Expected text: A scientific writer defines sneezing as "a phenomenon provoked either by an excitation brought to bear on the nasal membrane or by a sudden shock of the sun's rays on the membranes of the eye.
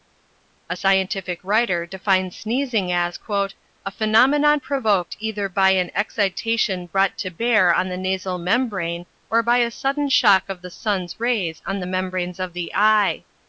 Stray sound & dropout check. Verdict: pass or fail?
pass